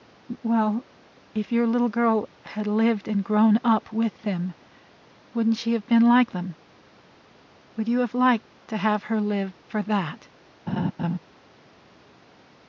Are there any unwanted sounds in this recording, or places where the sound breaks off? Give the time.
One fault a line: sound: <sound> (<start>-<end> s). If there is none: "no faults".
sound: laugh (10.7-11.2 s)